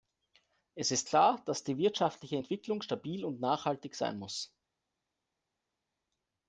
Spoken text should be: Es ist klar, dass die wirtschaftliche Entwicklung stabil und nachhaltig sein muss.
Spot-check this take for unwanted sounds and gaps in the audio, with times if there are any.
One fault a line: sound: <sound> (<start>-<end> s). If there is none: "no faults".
no faults